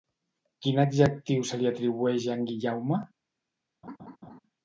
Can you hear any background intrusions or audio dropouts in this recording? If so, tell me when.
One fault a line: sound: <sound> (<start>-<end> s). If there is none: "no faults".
sound: laugh (3.8-4.4 s)